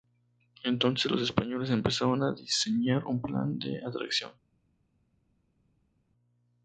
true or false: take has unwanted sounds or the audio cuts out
false